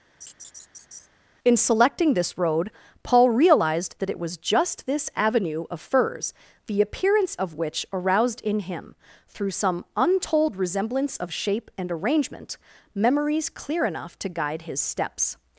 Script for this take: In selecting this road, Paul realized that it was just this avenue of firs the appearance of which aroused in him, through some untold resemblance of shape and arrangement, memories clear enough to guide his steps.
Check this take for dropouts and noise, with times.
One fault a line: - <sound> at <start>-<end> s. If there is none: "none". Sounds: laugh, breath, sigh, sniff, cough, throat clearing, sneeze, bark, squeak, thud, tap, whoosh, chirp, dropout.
- laugh at 0.2-1.1 s